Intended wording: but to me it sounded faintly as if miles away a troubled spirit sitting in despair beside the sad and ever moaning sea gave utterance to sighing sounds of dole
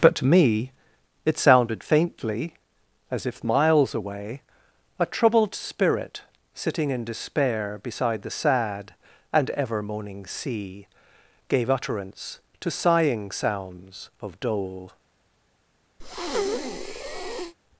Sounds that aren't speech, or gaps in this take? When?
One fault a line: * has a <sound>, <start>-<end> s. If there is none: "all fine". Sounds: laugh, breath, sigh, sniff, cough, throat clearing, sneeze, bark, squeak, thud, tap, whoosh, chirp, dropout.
* has a breath, 16.0-17.5 s